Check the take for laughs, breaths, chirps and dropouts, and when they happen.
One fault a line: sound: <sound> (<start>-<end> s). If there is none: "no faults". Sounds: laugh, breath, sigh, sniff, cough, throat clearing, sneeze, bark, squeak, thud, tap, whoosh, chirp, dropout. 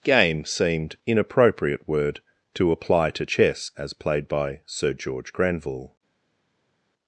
no faults